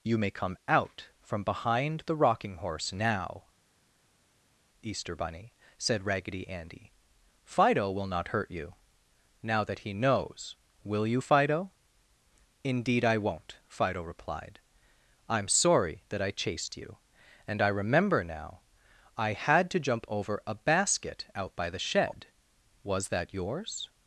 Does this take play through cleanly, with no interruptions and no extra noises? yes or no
yes